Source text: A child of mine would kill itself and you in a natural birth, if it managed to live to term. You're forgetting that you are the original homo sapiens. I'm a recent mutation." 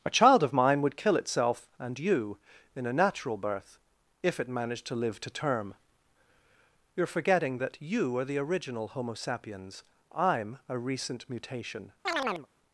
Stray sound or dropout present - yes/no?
yes